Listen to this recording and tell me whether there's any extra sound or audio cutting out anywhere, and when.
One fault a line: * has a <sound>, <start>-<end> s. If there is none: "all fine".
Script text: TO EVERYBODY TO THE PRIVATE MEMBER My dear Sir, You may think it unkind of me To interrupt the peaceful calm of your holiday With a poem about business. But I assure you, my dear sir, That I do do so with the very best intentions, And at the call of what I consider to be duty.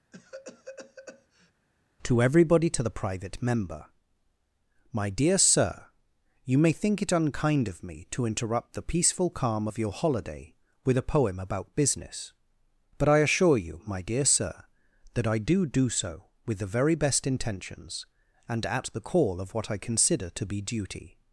* has a cough, 0.1-1.5 s